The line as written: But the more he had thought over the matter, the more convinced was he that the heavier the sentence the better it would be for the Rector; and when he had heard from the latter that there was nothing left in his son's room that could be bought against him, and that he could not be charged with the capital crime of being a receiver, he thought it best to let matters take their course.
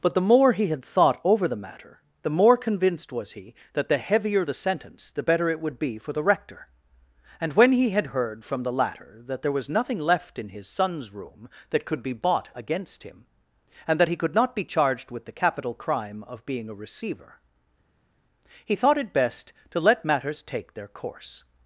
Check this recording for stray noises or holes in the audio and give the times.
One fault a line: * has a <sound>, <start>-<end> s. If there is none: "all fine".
all fine